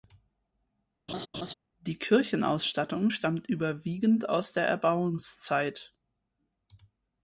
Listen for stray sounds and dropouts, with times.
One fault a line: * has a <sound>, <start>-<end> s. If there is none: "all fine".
* has a laugh, 1.1-1.5 s